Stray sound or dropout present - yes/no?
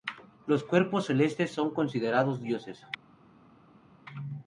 no